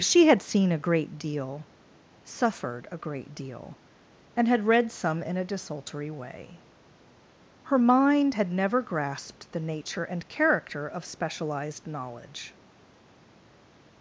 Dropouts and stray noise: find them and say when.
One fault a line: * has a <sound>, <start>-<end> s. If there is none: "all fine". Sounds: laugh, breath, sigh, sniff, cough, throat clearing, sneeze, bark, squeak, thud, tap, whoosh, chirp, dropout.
all fine